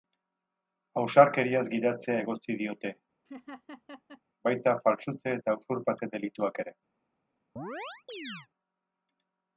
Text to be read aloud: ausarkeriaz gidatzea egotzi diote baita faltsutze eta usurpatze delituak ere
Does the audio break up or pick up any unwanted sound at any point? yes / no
yes